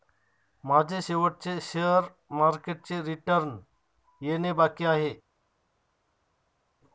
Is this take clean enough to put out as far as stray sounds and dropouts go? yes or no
yes